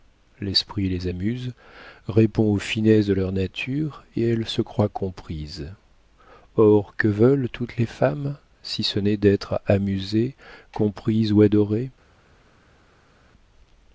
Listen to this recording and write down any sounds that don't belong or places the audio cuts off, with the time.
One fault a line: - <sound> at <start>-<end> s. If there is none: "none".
none